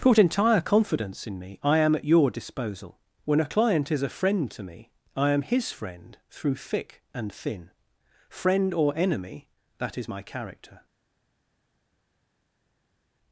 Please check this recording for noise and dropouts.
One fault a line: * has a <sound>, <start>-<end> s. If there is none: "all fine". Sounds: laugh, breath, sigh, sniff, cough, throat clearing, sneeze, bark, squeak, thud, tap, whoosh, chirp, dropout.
all fine